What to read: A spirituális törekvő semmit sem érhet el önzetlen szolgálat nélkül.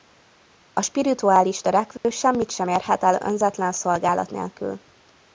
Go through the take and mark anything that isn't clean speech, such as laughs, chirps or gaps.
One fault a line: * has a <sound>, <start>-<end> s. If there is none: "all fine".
* has a dropout, 2.0-2.0 s